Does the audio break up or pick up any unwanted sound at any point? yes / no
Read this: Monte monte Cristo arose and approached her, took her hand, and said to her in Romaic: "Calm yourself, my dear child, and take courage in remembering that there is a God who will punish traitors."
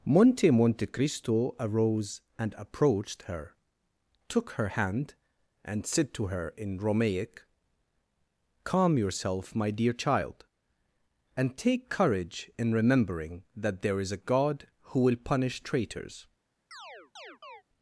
yes